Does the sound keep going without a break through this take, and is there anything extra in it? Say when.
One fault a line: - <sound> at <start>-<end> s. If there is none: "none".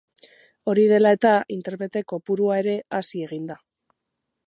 none